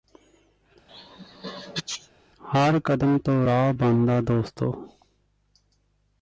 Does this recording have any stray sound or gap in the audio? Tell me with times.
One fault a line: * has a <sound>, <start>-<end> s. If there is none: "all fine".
* has a sneeze, 0.9-2.1 s